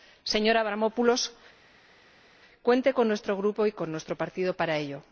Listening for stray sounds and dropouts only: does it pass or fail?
pass